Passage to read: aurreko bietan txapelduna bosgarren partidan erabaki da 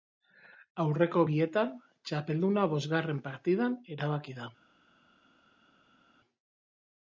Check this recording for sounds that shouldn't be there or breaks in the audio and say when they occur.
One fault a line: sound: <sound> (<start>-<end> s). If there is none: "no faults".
no faults